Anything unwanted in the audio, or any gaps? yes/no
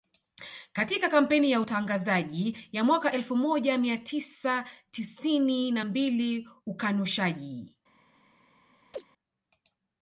yes